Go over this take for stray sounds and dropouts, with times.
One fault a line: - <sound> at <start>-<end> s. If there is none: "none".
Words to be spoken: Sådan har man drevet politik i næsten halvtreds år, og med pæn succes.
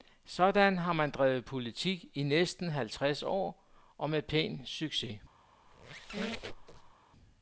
- squeak at 5.7-6.9 s